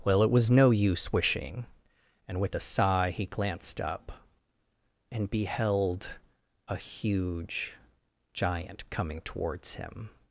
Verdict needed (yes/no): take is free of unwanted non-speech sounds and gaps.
yes